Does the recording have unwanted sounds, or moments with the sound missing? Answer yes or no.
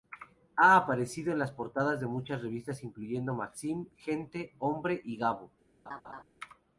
yes